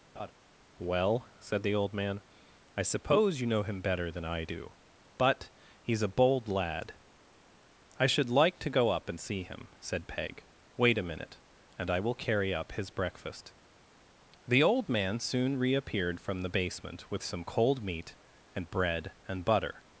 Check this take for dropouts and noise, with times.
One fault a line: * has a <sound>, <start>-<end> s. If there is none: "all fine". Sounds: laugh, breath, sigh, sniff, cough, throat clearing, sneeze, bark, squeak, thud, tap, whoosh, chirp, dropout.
* has a laugh, 0.1-0.3 s